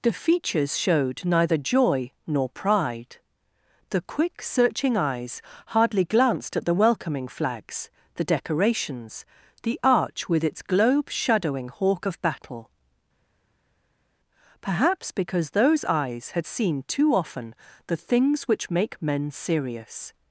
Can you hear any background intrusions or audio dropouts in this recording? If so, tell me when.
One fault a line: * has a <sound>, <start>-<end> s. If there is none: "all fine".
all fine